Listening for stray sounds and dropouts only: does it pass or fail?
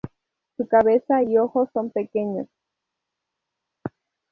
pass